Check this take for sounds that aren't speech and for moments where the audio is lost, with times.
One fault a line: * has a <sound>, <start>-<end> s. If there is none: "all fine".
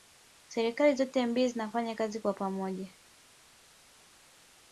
all fine